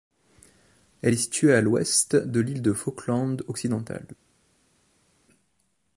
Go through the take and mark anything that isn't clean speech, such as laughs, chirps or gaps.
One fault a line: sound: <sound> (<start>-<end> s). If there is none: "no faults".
no faults